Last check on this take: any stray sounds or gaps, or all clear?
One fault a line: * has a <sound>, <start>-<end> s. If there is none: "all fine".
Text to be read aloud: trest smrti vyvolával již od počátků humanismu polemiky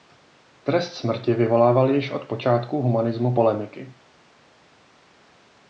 all fine